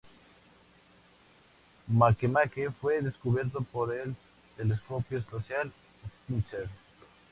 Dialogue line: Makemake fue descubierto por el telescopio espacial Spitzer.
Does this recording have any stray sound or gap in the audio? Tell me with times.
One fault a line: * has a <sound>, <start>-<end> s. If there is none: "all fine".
all fine